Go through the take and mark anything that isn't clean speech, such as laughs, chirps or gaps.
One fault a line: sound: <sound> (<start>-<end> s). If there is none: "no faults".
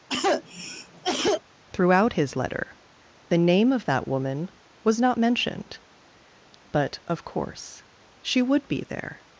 sound: cough (0.1-1.4 s)